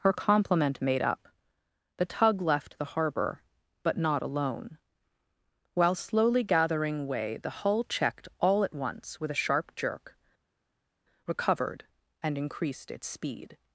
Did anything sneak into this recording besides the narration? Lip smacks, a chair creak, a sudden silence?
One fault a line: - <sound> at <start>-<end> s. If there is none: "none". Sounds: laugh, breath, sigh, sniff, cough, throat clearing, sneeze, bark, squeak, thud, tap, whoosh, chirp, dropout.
none